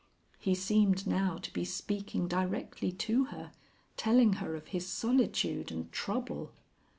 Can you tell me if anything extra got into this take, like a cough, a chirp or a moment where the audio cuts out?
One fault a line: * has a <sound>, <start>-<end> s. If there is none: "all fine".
all fine